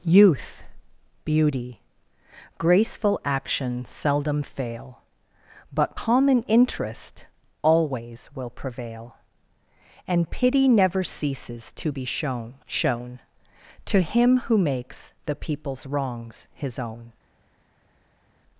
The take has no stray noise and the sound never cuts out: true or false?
true